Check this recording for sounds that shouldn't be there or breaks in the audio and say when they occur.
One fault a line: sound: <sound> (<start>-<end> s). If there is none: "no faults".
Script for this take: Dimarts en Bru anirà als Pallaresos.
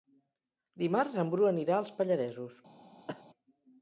sound: cough (3.1-3.2 s)